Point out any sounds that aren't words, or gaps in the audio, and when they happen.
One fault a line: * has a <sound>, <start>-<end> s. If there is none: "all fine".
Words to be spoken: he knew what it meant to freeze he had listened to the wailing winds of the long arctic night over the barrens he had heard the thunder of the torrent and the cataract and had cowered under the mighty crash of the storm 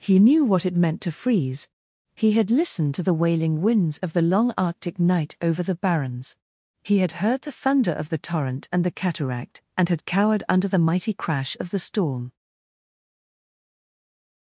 all fine